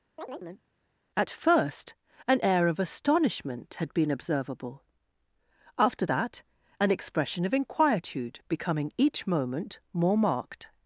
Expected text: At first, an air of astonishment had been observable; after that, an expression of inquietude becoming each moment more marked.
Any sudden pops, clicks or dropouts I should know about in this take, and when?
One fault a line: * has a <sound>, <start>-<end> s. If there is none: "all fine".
* has a chirp, 0.2-0.6 s